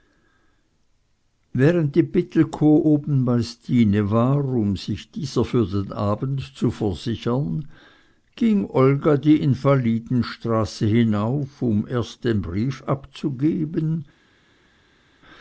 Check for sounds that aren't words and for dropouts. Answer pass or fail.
pass